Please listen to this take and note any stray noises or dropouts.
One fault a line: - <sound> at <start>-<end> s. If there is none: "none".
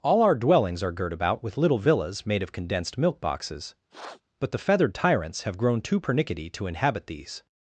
- sniff at 3.9-4.2 s